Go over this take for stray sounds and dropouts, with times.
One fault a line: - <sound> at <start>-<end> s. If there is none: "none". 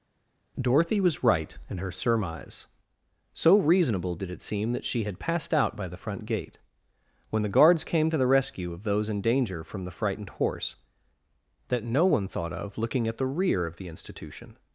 none